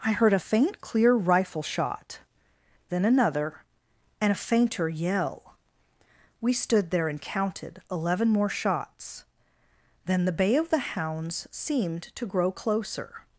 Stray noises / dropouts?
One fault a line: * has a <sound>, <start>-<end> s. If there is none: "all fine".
all fine